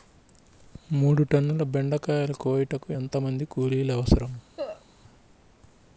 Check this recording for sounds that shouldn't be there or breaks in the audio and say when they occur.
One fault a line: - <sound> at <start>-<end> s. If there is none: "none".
- cough at 4.6-4.9 s